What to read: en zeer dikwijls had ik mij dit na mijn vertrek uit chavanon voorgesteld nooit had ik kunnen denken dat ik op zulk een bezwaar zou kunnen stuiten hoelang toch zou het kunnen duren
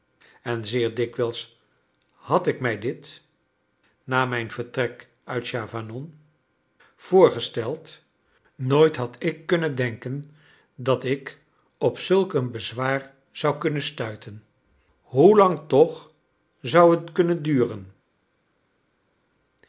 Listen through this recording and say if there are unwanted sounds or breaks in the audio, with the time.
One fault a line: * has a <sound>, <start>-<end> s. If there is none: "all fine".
all fine